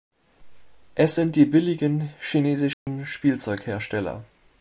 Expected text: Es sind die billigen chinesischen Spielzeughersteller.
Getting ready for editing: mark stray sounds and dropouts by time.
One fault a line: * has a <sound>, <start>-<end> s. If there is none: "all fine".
* has a dropout, 2.7-2.9 s